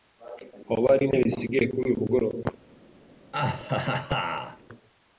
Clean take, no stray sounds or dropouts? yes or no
no